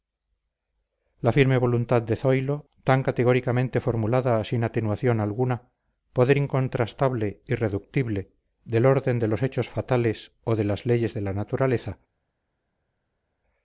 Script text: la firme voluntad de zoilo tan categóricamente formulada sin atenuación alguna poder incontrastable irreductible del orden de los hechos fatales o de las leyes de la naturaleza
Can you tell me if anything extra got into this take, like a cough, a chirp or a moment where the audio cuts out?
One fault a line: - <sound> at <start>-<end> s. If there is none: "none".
none